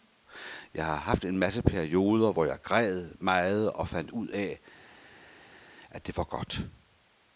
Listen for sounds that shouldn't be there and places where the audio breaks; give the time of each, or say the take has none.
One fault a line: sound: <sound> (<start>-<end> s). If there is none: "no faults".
no faults